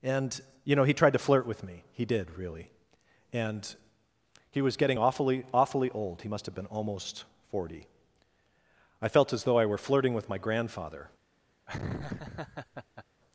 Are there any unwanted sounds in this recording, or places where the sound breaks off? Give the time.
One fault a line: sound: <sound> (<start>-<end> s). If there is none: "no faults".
sound: laugh (11.7-13.0 s)